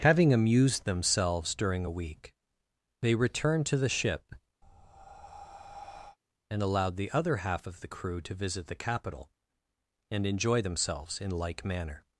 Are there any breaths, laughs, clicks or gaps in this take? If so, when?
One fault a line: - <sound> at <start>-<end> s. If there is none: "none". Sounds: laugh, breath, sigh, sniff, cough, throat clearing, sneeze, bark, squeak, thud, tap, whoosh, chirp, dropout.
- breath at 4.6-6.2 s